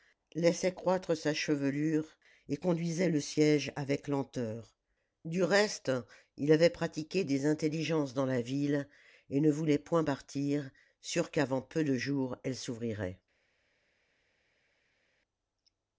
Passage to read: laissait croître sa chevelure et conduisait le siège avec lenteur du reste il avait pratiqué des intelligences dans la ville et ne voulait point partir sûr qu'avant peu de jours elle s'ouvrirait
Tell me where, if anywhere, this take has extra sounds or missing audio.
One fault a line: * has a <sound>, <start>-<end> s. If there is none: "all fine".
all fine